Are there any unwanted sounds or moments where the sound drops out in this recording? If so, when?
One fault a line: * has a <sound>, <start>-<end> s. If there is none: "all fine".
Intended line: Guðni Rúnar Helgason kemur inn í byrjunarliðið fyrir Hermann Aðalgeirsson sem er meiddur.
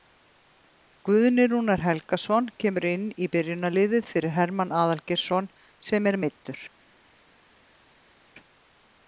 all fine